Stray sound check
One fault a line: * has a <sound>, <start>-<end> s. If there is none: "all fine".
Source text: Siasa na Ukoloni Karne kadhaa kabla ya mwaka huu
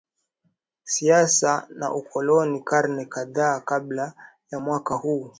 all fine